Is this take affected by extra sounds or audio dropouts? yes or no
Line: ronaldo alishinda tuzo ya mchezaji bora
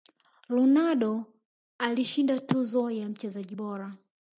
no